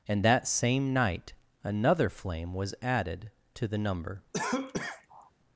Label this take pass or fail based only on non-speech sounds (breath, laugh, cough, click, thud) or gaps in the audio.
fail